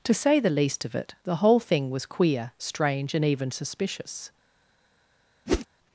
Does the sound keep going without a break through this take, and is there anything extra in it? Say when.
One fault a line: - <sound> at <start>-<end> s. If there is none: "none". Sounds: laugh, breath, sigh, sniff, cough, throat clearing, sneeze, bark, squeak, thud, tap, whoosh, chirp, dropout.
- whoosh at 5.5-5.7 s